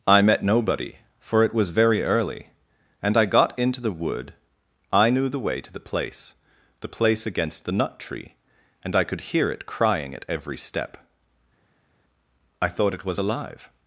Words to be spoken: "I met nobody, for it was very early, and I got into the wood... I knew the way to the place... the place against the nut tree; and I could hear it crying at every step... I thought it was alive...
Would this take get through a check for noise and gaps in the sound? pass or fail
pass